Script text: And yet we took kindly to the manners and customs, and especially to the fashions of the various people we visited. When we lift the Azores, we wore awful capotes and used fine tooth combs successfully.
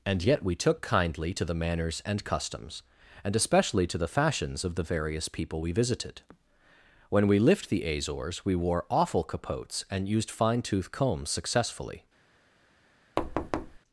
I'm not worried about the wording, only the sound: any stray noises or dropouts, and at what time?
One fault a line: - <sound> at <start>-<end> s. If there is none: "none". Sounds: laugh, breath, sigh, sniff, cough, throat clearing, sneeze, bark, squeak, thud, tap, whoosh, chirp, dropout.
- thud at 13.2-13.8 s